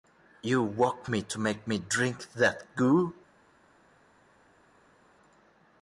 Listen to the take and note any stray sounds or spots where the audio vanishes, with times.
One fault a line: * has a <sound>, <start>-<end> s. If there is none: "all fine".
all fine